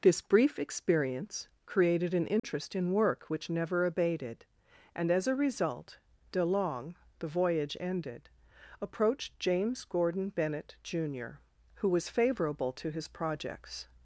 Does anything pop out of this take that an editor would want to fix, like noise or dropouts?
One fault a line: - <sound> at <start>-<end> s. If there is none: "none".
- dropout at 2.4-2.4 s